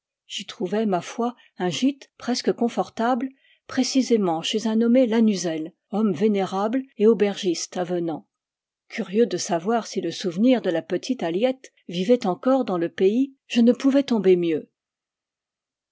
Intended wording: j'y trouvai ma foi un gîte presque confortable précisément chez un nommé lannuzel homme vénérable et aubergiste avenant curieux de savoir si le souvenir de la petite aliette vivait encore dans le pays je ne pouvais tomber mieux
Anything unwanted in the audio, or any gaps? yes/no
no